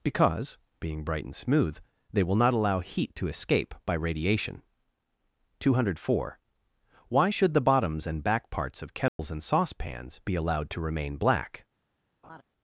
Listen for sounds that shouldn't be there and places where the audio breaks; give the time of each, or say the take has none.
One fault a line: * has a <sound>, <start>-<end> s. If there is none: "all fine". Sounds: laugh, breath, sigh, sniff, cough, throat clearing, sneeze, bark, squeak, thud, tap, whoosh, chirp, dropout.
* has a dropout, 9.1-9.2 s
* has a laugh, 12.2-12.4 s